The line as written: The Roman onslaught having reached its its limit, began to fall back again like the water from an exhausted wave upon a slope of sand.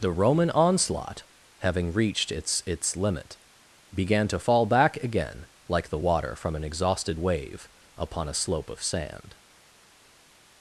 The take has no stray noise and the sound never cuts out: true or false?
true